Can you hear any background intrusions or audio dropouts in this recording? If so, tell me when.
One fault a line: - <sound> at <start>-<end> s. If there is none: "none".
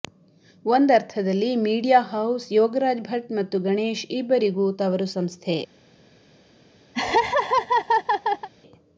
- laugh at 6.9-8.5 s